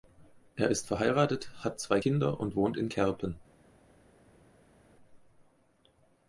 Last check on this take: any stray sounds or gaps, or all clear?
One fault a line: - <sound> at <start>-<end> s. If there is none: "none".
none